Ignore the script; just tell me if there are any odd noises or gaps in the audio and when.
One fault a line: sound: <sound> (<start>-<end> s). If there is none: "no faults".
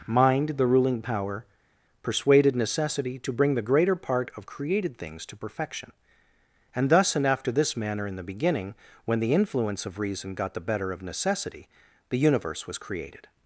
no faults